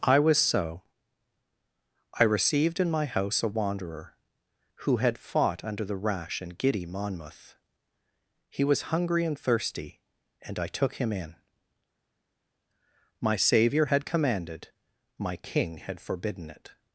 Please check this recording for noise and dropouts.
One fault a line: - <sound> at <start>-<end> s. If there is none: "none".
none